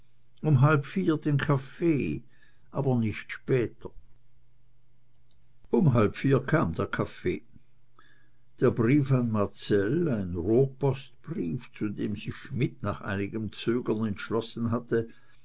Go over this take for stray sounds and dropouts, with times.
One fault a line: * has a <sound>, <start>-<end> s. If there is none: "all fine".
all fine